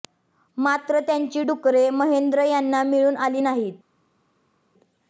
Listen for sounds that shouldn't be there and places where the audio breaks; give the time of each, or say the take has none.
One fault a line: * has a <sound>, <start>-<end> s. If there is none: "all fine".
all fine